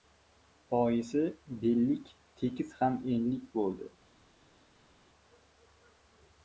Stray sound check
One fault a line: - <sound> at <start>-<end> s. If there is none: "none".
none